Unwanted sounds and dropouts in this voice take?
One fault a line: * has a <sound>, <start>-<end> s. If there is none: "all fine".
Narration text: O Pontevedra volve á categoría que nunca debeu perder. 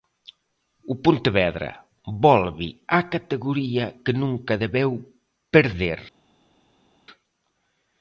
all fine